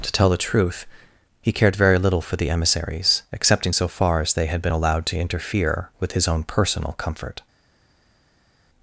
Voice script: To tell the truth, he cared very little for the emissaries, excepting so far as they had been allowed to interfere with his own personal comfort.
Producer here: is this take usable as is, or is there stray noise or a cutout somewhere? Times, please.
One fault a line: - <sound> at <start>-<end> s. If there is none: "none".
none